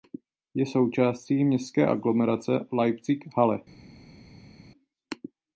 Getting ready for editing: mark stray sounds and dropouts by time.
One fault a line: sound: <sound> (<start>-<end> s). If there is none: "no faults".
no faults